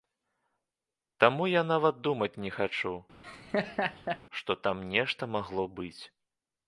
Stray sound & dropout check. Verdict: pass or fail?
fail